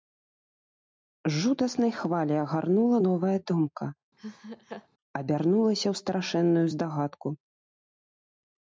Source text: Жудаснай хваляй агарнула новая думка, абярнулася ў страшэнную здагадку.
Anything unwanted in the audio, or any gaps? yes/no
yes